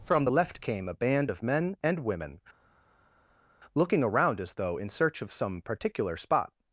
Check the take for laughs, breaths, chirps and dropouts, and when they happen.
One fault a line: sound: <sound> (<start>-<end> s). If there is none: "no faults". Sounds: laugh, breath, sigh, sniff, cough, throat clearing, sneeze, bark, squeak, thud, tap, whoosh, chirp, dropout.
no faults